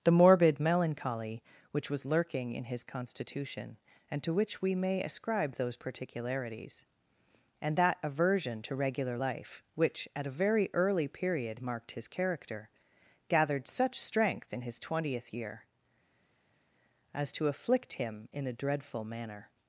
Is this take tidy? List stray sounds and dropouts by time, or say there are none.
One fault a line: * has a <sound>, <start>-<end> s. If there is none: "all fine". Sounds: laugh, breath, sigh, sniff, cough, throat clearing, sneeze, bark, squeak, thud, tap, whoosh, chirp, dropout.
all fine